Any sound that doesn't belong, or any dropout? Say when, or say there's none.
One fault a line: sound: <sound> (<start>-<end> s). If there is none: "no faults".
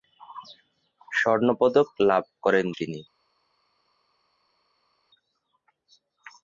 no faults